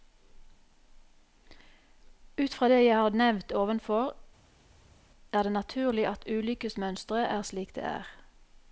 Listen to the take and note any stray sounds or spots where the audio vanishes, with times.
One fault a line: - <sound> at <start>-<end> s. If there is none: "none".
none